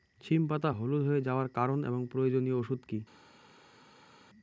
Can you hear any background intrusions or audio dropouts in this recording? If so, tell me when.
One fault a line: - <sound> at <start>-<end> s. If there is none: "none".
none